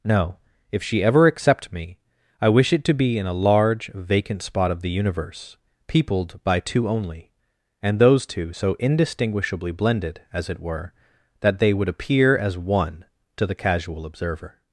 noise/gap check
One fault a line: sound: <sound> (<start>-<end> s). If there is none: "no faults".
no faults